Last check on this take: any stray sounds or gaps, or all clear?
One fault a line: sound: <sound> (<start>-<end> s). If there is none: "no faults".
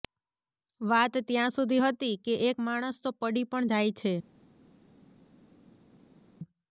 no faults